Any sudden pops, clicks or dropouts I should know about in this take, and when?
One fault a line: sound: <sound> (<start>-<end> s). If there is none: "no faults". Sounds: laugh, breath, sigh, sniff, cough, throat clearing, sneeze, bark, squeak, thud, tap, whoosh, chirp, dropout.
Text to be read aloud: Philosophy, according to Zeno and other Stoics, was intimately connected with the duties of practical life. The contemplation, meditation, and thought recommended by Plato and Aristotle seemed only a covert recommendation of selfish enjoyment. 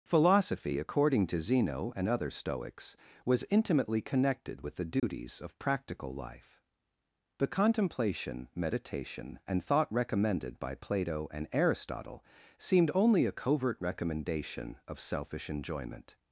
sound: dropout (5.0-5.0 s)